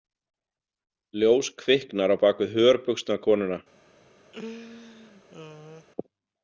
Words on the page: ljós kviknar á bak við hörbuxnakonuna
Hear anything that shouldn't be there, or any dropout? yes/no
yes